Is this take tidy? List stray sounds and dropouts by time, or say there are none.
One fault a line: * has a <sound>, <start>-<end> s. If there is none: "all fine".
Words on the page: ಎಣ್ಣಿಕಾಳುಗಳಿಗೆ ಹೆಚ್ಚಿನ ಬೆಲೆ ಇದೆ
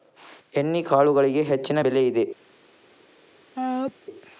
* has a sneeze, 3.6-3.9 s